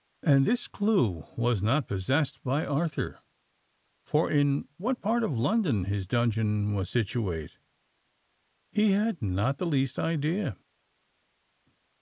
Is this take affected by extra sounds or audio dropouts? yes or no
no